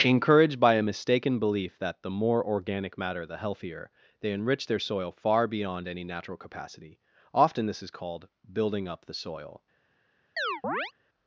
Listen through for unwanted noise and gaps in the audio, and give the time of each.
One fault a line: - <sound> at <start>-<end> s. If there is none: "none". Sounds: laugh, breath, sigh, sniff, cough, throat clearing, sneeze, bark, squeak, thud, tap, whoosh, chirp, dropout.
- chirp at 10.4-10.9 s